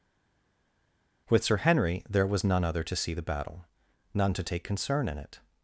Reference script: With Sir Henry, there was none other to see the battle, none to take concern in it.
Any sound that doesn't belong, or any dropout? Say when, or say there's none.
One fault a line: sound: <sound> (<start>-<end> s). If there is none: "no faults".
no faults